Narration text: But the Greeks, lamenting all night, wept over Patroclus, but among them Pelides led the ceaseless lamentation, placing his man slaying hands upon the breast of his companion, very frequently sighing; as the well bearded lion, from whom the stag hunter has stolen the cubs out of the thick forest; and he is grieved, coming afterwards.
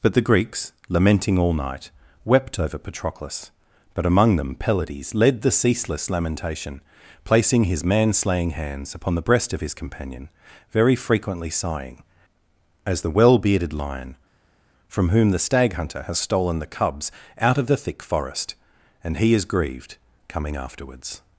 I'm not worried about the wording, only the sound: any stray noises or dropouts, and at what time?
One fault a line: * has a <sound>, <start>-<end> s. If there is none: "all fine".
all fine